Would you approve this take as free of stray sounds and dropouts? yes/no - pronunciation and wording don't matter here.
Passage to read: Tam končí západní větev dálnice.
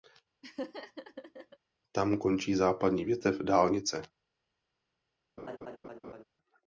no